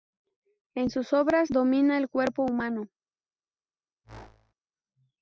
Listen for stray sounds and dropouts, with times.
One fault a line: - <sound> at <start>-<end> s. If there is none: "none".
- whoosh at 4.0-4.5 s